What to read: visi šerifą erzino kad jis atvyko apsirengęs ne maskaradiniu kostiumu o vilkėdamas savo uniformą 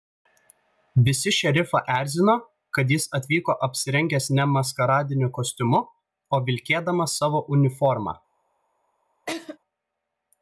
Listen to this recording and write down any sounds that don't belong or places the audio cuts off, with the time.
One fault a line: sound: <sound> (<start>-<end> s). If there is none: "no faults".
sound: laugh (9.3-9.6 s)